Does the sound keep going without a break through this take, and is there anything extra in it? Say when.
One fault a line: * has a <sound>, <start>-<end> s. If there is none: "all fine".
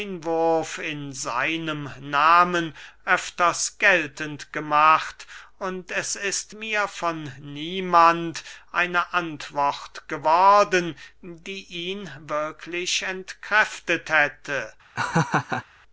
* has a laugh, 14.9-15.6 s